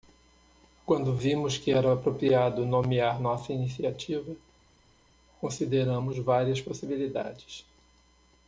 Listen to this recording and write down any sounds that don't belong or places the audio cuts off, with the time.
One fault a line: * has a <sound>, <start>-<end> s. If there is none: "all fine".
all fine